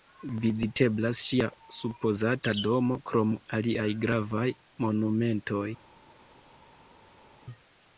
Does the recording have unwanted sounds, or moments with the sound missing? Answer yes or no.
no